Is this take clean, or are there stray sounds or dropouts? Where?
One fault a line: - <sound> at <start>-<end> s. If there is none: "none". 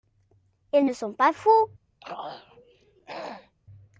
- throat clearing at 2.0-3.6 s